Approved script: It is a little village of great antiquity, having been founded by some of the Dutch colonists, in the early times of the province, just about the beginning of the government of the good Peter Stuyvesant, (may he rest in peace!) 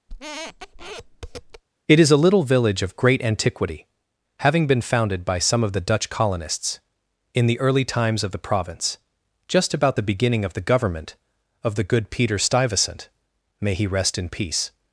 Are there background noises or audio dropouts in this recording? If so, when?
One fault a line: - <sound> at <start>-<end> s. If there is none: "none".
- squeak at 0.1-1.6 s